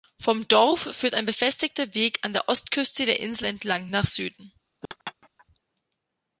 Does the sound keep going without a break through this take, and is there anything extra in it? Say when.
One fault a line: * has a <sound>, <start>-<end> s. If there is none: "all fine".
* has a laugh, 4.8-5.5 s